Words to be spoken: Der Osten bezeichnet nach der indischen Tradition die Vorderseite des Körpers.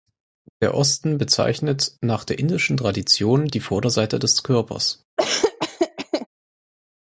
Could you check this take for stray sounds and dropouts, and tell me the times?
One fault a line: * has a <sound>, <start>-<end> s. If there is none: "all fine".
* has a laugh, 5.2-6.3 s